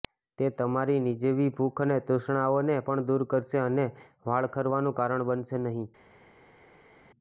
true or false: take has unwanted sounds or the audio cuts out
false